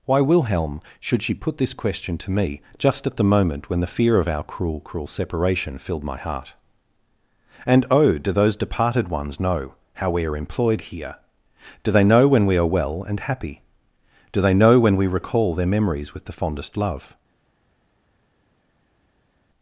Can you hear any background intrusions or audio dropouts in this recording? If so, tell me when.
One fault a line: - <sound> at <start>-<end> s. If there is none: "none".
none